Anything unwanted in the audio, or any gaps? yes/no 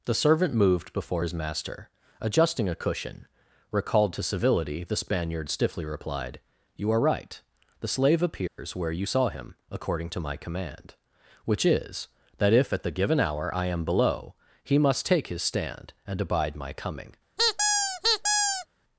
yes